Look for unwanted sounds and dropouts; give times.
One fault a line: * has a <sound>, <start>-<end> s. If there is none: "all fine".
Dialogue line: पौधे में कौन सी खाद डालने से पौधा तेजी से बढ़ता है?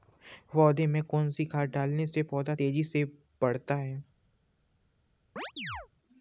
* has a chirp, 5.4-5.9 s